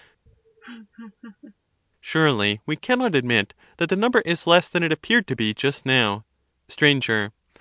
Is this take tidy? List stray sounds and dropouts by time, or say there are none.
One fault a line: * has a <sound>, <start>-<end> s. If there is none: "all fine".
* has a laugh, 0.3-1.6 s